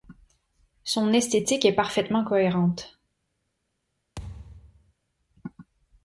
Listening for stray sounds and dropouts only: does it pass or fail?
fail